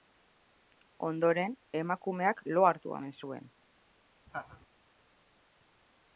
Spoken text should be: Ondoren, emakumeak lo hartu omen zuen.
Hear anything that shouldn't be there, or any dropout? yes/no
yes